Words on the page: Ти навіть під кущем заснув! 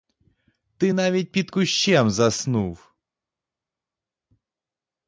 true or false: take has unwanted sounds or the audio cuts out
false